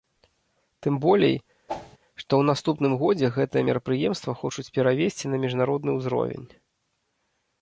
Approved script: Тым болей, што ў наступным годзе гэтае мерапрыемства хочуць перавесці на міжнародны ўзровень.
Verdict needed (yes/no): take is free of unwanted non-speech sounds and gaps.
no